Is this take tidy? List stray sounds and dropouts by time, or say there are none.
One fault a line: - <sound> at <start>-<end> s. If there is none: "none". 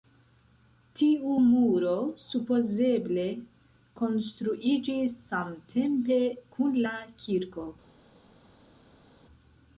none